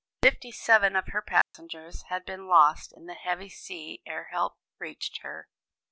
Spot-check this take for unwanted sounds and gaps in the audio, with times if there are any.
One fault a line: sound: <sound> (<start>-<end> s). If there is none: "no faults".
sound: dropout (1.4-1.5 s)